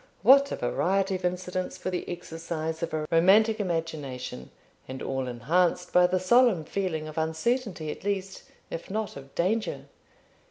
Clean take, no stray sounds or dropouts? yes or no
yes